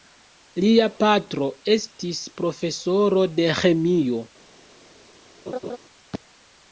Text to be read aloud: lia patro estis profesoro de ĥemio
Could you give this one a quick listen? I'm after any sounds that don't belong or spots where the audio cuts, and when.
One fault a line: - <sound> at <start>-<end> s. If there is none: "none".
- laugh at 5.5-5.8 s